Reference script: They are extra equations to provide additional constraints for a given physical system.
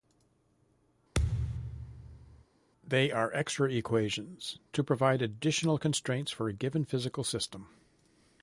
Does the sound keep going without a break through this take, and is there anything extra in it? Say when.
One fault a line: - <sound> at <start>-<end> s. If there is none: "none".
- thud at 1.1-2.4 s